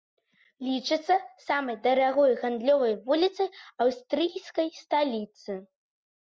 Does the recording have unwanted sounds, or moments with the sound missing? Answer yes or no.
no